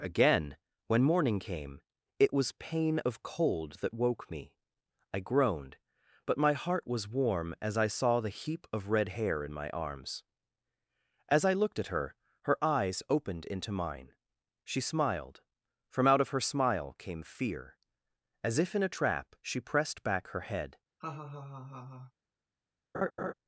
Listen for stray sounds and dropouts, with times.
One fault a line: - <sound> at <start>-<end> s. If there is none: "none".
- laugh at 21.0-22.1 s
- laugh at 22.9-23.3 s